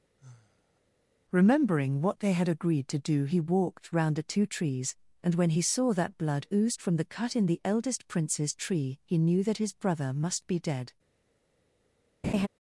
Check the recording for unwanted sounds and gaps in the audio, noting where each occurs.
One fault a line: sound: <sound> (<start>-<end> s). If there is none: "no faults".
sound: sigh (0.2-0.8 s)
sound: laugh (12.2-12.5 s)